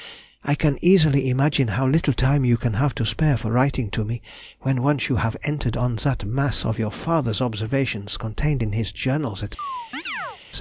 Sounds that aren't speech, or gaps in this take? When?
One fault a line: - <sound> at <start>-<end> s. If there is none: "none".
- chirp at 9.6-10.4 s